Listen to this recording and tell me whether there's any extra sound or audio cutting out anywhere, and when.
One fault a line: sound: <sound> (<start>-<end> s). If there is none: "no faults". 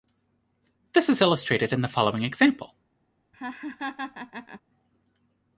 sound: laugh (3.3-4.6 s)